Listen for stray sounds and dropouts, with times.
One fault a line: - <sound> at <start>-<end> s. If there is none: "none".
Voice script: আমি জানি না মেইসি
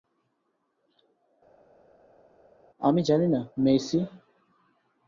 none